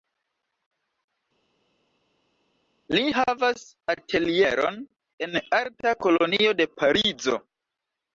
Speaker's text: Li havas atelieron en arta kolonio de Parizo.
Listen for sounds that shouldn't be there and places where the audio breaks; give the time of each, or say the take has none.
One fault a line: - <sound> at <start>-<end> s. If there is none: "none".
none